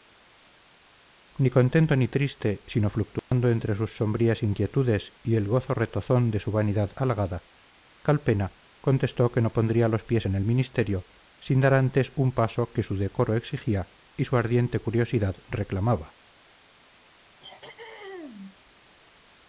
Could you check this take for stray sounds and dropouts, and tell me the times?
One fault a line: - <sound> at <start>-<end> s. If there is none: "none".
- dropout at 3.2-3.3 s
- throat clearing at 17.4-18.6 s